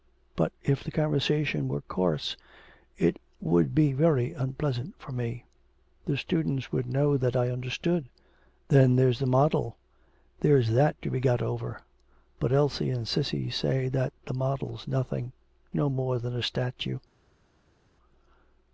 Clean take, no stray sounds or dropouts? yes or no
yes